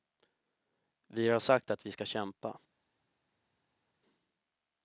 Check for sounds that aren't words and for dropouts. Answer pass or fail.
pass